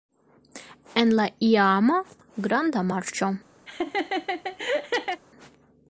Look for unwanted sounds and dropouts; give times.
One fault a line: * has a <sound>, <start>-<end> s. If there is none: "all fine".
* has a laugh, 3.7-5.2 s